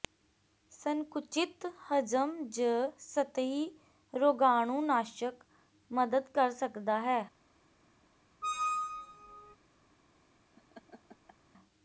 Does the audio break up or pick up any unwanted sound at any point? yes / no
yes